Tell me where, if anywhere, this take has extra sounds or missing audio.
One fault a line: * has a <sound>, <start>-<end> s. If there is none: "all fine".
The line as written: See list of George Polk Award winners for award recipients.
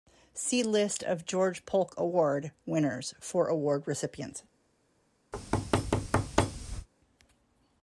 * has a thud, 5.3-6.9 s